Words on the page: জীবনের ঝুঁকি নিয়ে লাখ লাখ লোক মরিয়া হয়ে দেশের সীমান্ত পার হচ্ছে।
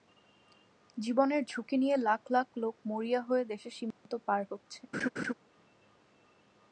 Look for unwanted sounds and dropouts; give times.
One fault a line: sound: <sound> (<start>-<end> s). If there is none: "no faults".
sound: dropout (3.9-4.1 s)
sound: laugh (4.9-5.3 s)